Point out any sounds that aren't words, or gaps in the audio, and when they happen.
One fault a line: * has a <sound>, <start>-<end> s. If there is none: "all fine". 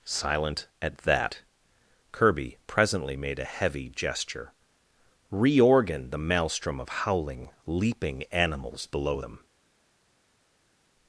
all fine